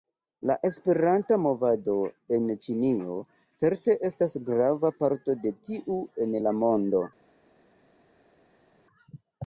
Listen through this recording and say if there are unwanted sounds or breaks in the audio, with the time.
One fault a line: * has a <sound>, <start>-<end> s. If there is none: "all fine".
all fine